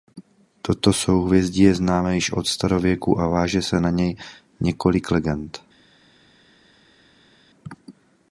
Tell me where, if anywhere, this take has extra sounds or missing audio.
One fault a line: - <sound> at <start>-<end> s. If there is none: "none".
none